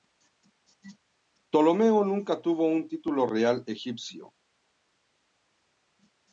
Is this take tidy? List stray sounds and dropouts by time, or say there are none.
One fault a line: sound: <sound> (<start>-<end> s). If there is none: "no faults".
no faults